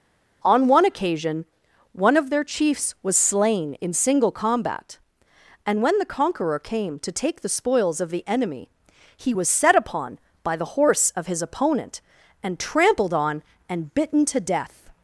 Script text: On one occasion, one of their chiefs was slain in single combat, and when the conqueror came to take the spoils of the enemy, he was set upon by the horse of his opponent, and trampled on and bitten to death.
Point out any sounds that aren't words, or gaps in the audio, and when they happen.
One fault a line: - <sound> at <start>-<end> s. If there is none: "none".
none